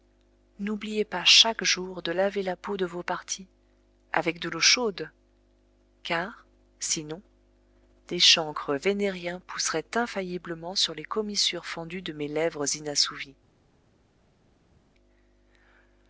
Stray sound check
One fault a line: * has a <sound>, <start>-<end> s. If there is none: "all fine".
all fine